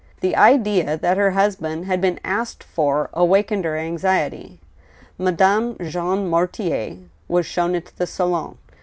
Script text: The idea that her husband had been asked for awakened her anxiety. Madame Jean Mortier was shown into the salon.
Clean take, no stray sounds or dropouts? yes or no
yes